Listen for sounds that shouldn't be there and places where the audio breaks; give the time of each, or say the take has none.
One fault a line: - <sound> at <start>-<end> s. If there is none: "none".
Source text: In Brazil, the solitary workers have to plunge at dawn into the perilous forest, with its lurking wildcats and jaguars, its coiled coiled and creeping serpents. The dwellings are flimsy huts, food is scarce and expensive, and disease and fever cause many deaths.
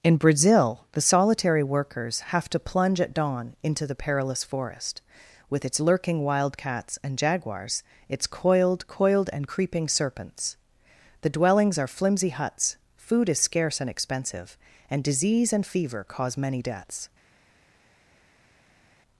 none